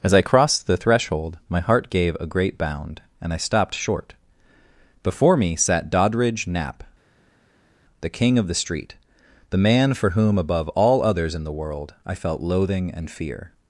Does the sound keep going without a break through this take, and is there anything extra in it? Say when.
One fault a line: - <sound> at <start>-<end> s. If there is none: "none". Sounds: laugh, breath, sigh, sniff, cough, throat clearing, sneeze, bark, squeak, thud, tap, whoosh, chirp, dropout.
none